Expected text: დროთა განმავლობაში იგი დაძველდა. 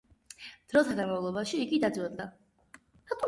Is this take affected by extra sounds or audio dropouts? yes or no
no